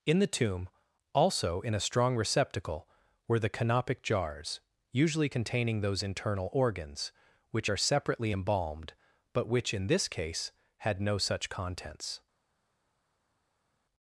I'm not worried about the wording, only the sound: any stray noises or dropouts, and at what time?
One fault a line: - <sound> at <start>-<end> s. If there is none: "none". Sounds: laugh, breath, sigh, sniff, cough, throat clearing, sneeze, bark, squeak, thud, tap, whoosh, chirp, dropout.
none